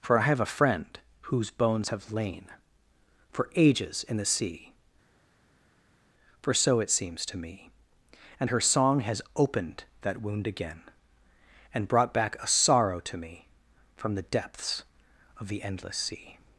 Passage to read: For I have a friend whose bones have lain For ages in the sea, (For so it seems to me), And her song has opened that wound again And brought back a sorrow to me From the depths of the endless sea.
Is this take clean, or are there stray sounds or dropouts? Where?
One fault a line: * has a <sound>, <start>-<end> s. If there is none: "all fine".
all fine